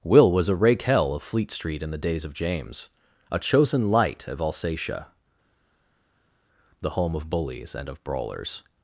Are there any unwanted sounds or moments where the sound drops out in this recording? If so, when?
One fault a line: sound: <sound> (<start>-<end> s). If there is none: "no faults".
no faults